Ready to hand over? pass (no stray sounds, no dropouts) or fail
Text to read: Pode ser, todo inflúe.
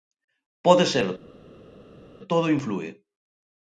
pass